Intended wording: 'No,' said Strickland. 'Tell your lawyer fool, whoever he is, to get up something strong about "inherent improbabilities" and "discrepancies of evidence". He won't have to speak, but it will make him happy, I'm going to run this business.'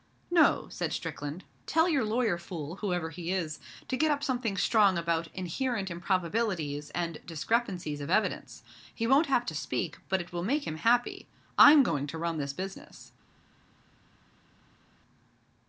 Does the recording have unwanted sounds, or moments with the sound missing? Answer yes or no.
no